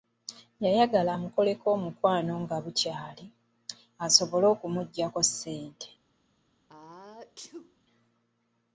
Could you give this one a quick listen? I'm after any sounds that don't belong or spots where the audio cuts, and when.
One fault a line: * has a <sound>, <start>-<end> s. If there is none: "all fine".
* has a sneeze, 6.7-7.8 s